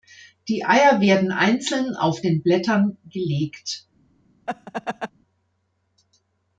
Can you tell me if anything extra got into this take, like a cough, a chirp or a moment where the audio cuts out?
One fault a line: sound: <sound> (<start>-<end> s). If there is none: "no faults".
sound: laugh (4.5-5.1 s)